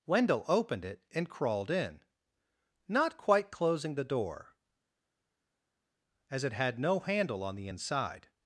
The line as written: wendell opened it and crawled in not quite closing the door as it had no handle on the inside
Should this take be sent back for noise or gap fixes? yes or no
no